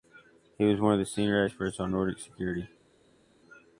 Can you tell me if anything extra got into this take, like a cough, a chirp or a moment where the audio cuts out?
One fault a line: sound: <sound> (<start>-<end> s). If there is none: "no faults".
no faults